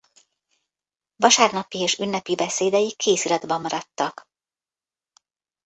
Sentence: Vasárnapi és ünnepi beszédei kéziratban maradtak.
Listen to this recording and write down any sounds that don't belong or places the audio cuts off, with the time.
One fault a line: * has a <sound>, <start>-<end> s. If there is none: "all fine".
all fine